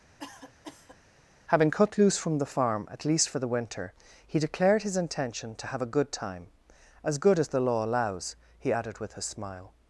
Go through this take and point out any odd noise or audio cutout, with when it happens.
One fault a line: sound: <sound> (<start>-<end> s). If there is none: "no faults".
sound: cough (0.2-1.0 s)